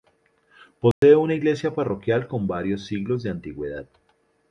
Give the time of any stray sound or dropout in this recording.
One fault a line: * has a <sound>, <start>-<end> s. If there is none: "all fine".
* has a dropout, 0.9-1.0 s